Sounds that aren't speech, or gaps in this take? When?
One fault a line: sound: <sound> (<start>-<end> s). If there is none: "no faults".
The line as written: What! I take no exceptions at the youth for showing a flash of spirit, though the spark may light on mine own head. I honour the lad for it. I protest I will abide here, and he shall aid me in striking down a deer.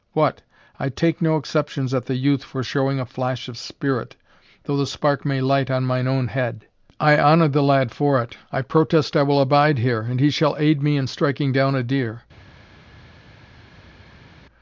no faults